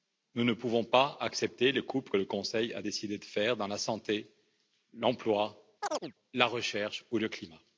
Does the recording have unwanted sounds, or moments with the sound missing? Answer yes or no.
yes